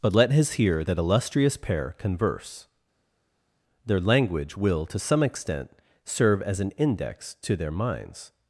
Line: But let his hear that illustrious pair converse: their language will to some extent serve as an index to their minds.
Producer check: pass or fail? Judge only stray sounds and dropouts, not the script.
pass